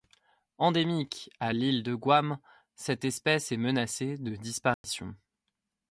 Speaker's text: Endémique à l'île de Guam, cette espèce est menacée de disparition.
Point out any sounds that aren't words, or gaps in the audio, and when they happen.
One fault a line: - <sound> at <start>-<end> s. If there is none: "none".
- dropout at 4.7-4.8 s